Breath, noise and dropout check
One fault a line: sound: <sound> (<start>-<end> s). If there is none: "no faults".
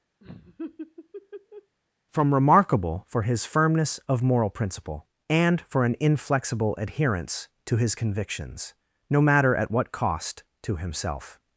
sound: laugh (0.2-1.8 s)